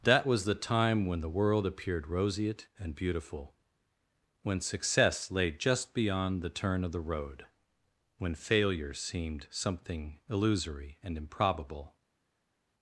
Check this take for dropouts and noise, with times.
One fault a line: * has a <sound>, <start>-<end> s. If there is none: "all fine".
all fine